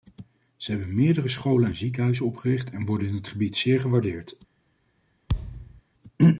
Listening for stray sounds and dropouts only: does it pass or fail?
fail